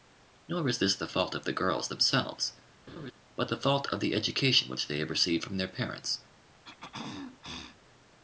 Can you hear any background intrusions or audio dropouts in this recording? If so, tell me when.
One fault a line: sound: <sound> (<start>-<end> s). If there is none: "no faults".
sound: laugh (2.9-3.1 s)
sound: throat clearing (6.6-7.8 s)